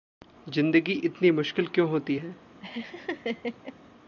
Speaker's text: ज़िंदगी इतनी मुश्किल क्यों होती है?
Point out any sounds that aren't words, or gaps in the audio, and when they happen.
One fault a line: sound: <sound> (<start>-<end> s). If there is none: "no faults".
sound: laugh (2.6-3.7 s)